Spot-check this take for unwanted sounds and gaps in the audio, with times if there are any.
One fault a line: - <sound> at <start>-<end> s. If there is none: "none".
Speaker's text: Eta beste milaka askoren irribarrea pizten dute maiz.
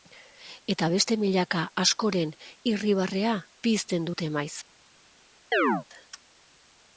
- chirp at 5.5-5.8 s